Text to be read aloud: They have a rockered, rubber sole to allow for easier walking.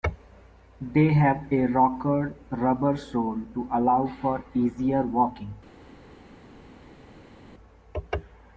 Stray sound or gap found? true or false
false